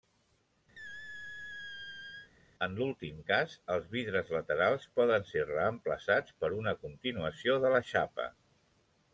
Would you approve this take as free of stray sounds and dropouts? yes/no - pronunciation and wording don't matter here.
no